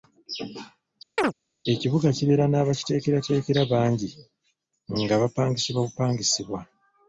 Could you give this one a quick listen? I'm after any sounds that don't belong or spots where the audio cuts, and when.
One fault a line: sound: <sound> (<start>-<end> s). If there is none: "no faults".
sound: chirp (1.2-1.3 s)